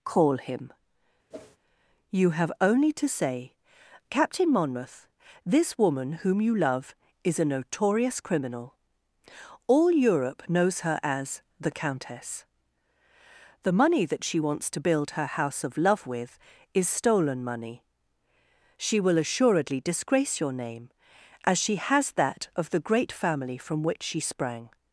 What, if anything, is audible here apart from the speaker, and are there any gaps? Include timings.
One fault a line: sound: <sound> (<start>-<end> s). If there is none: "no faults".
sound: whoosh (1.3-1.6 s)